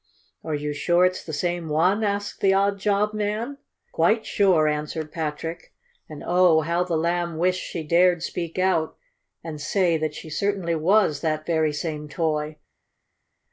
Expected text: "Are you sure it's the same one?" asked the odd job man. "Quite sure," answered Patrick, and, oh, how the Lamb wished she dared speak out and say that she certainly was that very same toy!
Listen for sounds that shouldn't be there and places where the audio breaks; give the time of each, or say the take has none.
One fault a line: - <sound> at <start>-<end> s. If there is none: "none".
none